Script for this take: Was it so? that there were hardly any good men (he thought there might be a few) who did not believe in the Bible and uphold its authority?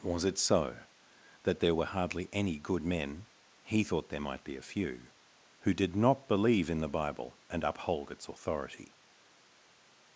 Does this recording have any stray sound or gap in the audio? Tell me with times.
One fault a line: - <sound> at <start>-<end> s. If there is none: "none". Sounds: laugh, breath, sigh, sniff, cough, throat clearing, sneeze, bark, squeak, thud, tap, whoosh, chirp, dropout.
none